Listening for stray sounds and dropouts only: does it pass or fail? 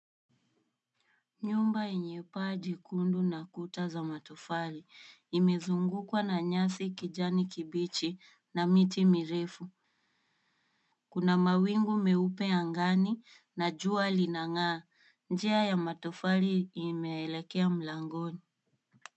pass